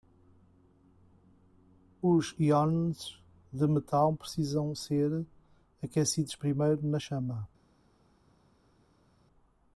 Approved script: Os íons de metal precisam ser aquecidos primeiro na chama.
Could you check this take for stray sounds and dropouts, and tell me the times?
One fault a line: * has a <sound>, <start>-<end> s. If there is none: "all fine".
all fine